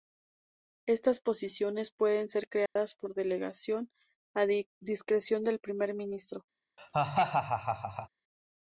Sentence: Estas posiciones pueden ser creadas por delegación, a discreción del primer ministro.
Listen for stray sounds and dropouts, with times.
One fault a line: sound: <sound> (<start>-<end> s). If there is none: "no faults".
sound: dropout (2.7-2.8 s)
sound: laugh (6.8-8.1 s)